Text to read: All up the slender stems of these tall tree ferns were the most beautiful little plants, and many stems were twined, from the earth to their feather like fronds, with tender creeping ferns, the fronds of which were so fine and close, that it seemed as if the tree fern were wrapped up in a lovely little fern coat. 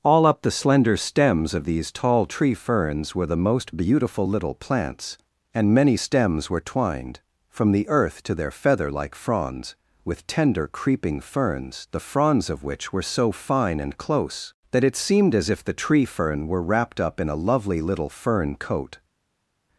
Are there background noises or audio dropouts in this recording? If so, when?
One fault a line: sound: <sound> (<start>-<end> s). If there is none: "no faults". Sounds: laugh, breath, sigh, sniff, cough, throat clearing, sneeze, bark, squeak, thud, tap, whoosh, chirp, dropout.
no faults